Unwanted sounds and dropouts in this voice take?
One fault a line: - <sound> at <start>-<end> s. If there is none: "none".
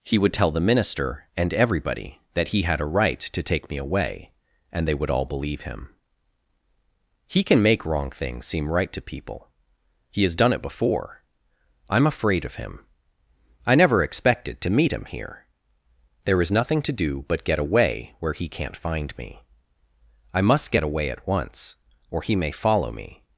none